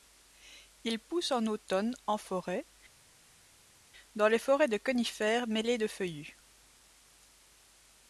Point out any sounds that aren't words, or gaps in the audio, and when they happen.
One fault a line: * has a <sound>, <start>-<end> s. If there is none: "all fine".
all fine